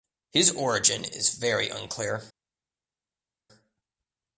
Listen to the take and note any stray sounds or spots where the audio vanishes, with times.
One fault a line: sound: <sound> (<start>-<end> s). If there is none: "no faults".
no faults